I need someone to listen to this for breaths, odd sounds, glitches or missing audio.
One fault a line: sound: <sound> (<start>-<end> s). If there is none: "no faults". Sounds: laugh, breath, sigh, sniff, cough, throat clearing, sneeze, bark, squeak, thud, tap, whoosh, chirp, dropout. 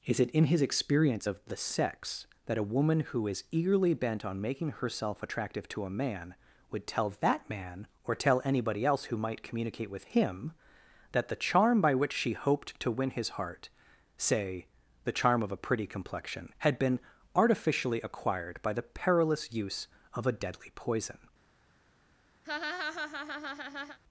sound: laugh (22.4-24.0 s)